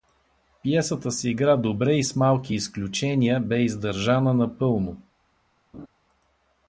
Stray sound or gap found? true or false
true